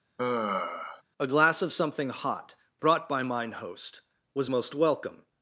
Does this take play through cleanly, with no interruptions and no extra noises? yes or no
no